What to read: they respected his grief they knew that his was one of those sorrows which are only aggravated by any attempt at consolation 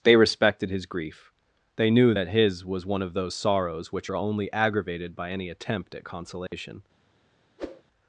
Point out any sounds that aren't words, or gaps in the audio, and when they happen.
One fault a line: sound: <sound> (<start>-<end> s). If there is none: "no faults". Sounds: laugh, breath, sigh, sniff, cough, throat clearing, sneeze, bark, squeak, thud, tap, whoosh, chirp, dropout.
sound: dropout (6.5-6.5 s)
sound: whoosh (7.6-7.8 s)